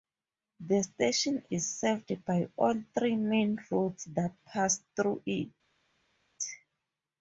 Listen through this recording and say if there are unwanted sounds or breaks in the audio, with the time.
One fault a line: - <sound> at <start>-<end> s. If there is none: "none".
none